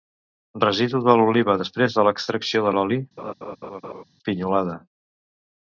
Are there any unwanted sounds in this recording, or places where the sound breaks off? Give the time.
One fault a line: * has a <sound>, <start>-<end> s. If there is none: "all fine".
* has a laugh, 3.2-4.0 s